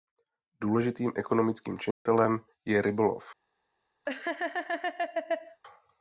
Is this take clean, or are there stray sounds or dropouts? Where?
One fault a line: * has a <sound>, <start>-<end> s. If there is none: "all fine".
* has a dropout, 1.9-2.1 s
* has a laugh, 4.1-5.6 s